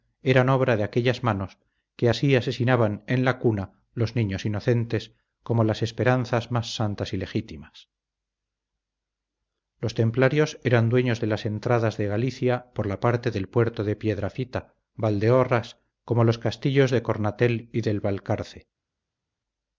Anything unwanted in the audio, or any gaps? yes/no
no